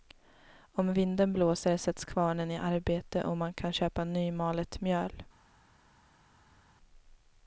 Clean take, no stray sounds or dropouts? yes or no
yes